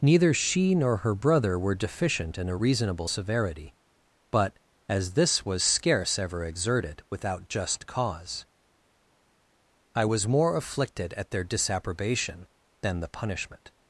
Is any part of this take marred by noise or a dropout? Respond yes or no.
no